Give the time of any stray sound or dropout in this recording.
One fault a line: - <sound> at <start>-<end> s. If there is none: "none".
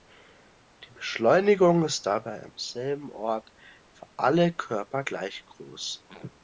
none